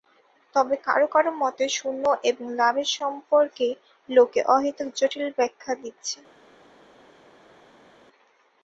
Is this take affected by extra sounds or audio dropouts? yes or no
no